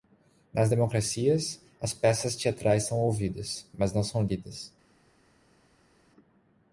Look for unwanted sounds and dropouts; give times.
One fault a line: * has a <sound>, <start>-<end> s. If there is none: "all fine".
all fine